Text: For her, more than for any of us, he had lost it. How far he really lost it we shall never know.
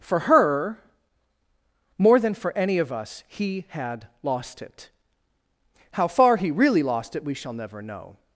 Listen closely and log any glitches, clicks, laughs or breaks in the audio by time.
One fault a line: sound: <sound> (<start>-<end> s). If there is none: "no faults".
no faults